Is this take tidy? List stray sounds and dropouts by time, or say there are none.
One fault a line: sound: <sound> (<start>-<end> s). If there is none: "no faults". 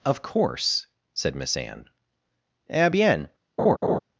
sound: laugh (3.6-4.0 s)